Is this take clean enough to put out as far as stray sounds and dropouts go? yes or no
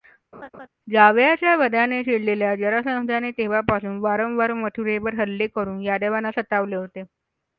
no